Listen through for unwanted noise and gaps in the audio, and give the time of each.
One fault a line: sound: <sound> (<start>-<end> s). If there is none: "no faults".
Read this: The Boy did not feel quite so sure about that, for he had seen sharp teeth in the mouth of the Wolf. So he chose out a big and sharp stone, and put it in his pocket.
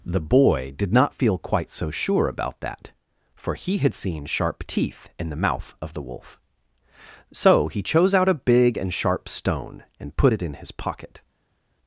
no faults